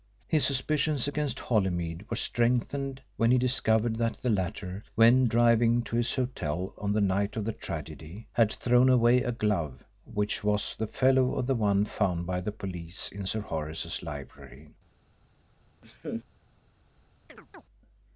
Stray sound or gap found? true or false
true